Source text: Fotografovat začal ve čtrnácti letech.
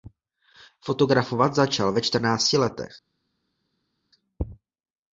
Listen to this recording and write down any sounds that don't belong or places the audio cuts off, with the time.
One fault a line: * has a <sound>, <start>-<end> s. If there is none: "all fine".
all fine